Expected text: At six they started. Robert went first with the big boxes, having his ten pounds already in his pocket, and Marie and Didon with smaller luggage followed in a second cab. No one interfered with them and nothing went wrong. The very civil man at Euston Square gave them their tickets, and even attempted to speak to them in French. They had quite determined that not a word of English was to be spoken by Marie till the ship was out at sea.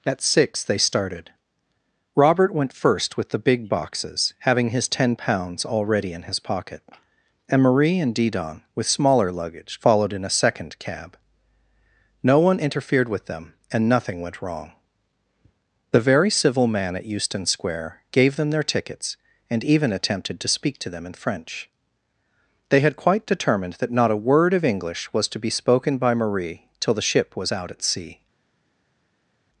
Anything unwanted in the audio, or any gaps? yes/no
no